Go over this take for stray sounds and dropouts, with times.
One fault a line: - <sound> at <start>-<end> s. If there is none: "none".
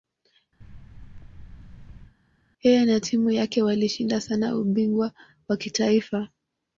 - thud at 0.6-2.2 s